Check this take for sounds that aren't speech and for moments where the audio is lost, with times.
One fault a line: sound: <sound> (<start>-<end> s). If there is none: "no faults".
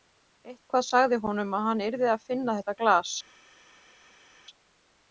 no faults